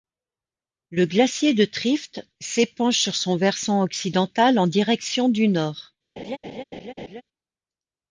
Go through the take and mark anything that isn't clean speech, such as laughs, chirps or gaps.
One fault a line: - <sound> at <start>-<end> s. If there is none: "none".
- laugh at 6.2-7.2 s